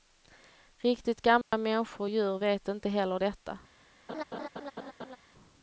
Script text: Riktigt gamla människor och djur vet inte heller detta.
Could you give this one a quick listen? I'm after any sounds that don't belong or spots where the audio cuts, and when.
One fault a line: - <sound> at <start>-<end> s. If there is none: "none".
- dropout at 1.4-1.5 s
- laugh at 4.1-5.2 s